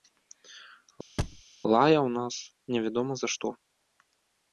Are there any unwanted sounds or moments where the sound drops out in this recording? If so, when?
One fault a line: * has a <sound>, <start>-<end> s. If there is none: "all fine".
* has a thud, 1.2-1.4 s